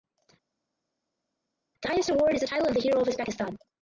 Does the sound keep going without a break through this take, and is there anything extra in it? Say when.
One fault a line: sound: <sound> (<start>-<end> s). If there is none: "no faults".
no faults